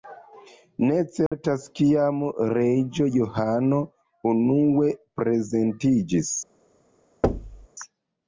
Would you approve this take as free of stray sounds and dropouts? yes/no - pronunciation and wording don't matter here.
no